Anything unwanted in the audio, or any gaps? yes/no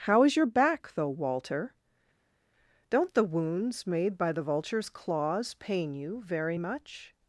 no